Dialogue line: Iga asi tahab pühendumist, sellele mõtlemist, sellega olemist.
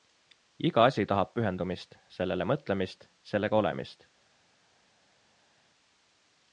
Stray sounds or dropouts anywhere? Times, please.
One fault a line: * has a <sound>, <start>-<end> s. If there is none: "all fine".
all fine